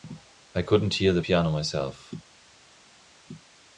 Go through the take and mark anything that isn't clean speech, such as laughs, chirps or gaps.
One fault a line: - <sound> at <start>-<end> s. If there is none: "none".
none